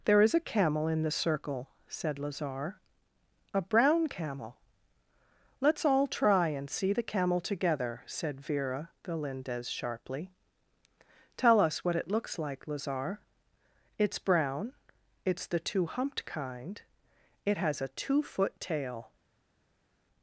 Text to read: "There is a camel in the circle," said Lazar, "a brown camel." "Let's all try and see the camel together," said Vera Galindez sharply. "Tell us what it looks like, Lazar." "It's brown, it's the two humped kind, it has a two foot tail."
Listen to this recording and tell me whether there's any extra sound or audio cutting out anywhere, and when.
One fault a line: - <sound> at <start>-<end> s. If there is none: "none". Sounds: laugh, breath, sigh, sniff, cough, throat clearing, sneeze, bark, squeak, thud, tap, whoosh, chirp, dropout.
none